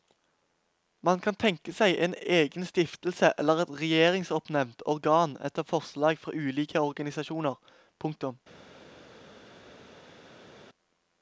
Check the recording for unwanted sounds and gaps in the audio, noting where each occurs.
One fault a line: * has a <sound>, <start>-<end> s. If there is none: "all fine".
all fine